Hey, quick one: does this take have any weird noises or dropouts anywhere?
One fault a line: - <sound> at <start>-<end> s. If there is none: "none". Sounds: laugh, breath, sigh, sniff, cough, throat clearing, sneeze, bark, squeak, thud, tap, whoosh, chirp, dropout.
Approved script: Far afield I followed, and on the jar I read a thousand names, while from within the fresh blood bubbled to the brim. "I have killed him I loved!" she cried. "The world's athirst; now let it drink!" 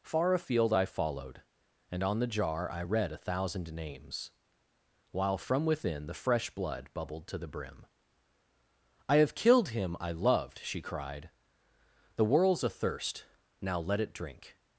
none